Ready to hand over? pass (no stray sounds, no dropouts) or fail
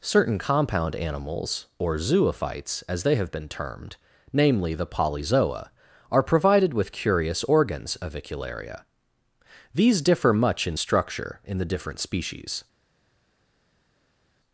pass